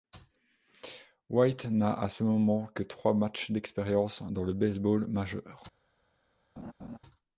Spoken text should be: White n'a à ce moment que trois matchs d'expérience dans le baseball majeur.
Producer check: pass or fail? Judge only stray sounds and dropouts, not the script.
fail